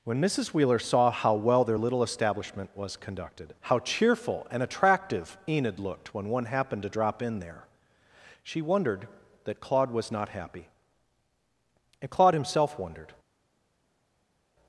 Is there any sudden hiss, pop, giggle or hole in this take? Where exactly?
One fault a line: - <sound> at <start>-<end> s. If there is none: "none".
none